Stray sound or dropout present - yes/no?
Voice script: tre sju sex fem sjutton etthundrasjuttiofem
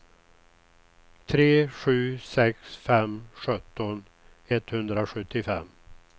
no